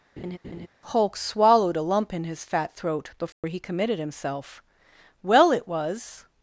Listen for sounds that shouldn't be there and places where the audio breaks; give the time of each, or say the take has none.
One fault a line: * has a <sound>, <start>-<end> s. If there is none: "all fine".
* has a laugh, 0.2-0.7 s
* has a dropout, 3.3-3.4 s